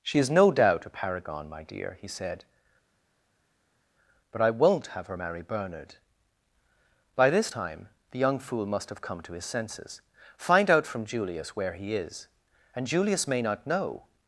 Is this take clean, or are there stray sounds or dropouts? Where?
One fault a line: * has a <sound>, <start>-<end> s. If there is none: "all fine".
all fine